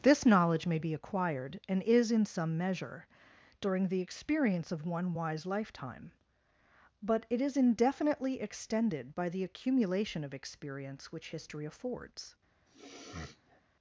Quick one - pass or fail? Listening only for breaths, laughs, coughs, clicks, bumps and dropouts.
fail